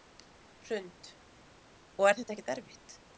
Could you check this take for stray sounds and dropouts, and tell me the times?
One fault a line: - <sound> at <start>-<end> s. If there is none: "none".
none